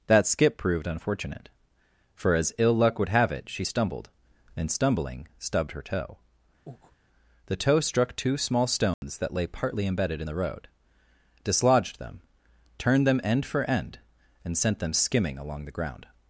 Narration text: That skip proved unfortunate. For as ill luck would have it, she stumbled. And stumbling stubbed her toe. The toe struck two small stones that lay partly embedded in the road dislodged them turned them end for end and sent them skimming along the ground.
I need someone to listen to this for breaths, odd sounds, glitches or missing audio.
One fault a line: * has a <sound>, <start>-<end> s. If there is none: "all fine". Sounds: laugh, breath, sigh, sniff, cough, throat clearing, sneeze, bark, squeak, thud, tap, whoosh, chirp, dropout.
* has a breath, 6.7-7.0 s
* has a dropout, 8.9-9.0 s